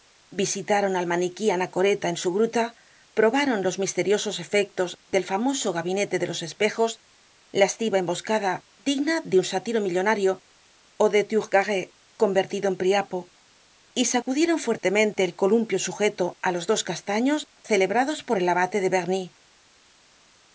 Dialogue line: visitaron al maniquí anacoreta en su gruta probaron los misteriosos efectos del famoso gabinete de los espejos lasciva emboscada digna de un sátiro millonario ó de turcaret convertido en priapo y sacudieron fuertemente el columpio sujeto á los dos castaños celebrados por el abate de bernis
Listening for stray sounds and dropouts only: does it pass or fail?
pass